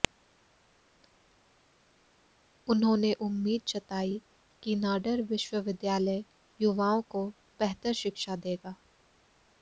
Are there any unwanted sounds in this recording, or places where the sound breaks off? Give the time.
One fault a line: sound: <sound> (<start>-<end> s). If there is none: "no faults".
no faults